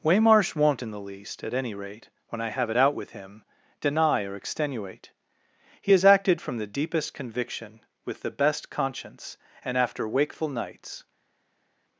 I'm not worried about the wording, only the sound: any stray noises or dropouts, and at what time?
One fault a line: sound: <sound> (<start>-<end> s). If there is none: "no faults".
no faults